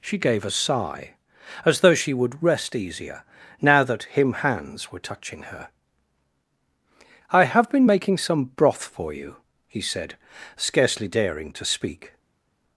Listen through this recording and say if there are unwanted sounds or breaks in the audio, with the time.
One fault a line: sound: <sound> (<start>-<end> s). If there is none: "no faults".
no faults